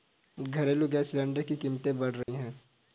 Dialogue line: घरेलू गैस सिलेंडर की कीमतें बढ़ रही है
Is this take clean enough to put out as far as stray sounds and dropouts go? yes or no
no